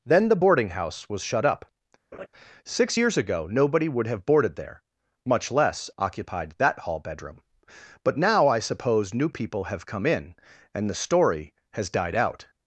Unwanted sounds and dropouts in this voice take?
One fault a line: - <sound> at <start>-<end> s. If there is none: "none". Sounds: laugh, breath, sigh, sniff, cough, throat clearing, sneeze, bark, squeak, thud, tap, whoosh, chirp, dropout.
- laugh at 2.1-2.3 s